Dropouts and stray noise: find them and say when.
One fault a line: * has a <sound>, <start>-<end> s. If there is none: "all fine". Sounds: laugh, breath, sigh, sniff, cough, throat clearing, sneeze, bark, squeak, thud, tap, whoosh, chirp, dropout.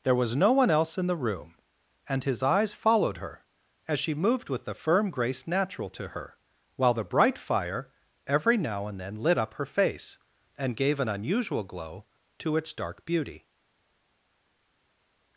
all fine